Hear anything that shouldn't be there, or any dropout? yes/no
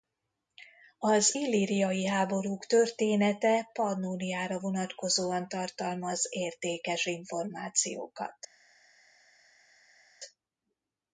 no